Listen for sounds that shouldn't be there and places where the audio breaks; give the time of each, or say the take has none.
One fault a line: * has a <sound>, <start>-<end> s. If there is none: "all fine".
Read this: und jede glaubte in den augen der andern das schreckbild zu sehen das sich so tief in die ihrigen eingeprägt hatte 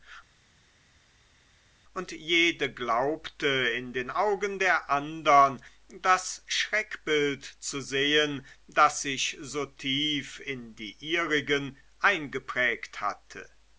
all fine